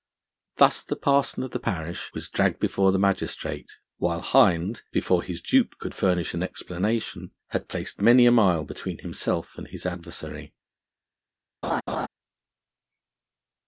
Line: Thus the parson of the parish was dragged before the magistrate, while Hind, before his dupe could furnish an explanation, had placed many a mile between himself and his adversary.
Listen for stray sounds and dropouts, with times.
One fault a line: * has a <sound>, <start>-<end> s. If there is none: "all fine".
* has a laugh, 11.6-12.1 s